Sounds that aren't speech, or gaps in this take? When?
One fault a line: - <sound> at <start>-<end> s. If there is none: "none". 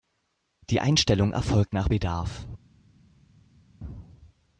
none